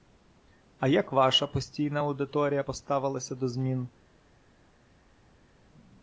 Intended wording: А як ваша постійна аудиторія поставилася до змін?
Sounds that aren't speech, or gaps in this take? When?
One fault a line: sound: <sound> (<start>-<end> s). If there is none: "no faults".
no faults